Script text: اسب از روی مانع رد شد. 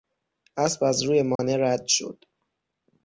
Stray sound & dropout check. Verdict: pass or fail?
fail